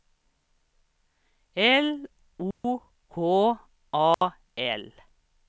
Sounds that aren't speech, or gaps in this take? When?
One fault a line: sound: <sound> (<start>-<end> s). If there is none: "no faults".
sound: dropout (2.5-2.6 s)
sound: dropout (4.1-4.2 s)